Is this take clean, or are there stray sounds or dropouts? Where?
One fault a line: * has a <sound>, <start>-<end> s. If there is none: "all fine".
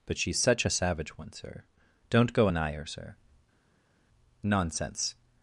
all fine